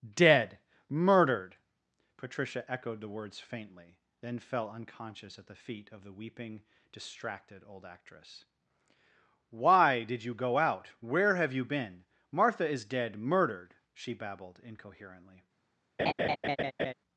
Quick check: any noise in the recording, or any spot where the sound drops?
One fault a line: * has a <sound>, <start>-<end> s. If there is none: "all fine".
* has a laugh, 16.0-16.9 s